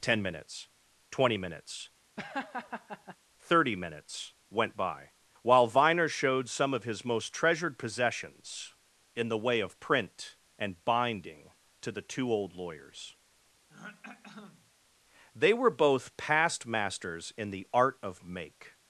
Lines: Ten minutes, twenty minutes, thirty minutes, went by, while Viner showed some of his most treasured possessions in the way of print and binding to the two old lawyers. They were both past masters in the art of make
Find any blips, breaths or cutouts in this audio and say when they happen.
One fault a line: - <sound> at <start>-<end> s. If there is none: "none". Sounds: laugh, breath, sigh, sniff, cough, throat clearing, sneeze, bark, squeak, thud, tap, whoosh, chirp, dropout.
- laugh at 2.2-3.2 s
- throat clearing at 13.7-14.7 s